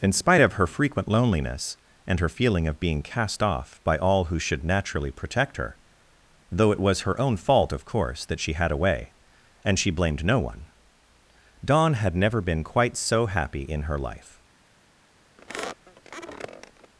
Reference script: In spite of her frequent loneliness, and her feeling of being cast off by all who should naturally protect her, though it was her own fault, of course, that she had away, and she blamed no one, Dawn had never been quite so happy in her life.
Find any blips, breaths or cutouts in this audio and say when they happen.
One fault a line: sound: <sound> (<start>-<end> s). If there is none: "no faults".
sound: squeak (15.4-16.9 s)